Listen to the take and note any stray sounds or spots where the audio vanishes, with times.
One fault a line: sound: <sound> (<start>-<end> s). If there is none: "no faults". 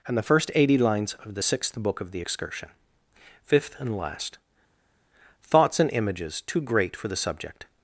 no faults